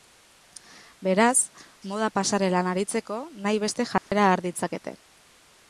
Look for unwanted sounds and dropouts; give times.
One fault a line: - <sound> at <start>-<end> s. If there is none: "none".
- dropout at 4.0-4.1 s